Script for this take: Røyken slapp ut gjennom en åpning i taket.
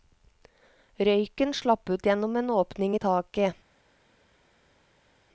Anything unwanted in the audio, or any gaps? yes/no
no